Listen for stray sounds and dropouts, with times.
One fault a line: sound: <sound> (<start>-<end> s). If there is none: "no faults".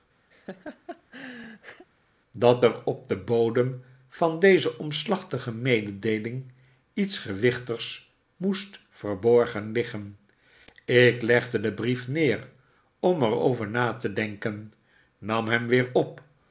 sound: laugh (0.3-1.9 s)